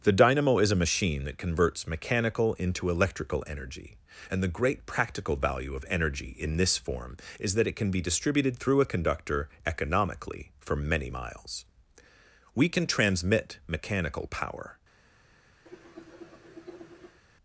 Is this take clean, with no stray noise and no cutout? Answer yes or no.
no